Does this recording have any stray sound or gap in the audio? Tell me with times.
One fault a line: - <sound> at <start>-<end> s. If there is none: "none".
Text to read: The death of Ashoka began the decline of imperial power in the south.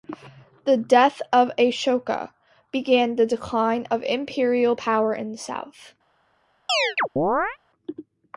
- chirp at 6.7-7.6 s